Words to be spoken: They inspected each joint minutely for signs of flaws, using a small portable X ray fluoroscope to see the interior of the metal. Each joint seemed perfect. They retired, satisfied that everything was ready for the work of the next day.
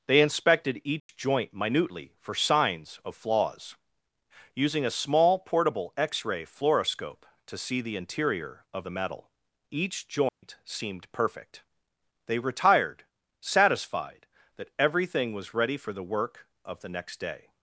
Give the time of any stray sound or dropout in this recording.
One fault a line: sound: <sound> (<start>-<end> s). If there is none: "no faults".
sound: dropout (1.0-1.1 s)
sound: dropout (10.3-10.4 s)